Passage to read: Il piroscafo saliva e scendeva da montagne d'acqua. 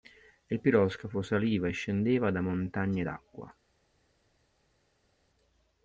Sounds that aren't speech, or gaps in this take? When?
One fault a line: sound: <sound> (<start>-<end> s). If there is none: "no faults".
no faults